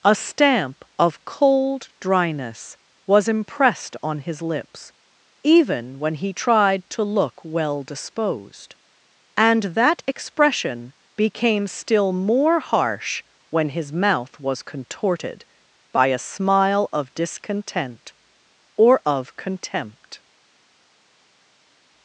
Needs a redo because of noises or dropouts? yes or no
no